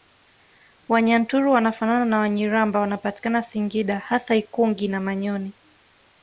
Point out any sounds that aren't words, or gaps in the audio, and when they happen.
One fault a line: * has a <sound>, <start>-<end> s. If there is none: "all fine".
all fine